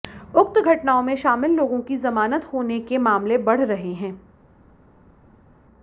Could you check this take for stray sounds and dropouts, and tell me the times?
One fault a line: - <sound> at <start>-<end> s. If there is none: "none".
none